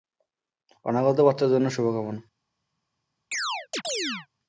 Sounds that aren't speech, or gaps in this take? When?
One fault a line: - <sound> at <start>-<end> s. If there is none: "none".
- chirp at 3.3-4.3 s